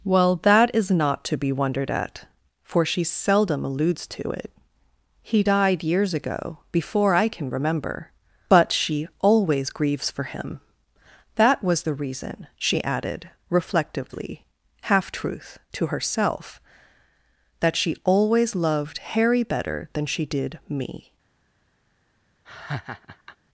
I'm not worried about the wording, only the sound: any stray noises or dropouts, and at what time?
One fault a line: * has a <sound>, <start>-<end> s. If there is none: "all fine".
* has a laugh, 22.5-23.4 s